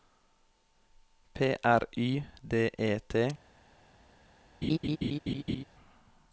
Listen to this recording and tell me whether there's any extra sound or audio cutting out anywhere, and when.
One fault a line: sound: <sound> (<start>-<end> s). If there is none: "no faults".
sound: laugh (4.6-5.6 s)